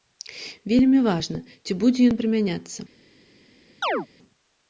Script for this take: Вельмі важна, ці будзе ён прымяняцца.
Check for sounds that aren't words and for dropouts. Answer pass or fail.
fail